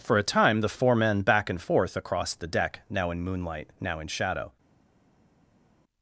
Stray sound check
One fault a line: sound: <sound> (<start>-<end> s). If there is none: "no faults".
no faults